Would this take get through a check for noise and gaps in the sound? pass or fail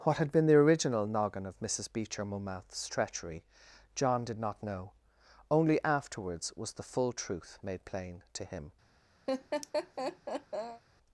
fail